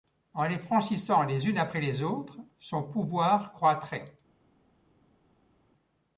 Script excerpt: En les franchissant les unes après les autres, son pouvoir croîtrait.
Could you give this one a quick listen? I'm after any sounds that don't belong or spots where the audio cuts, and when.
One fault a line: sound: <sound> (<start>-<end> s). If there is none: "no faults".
no faults